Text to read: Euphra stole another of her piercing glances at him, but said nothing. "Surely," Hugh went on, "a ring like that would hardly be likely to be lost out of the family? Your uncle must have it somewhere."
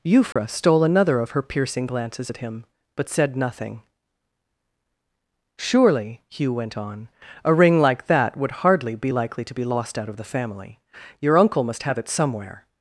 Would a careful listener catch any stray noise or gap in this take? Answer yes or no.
yes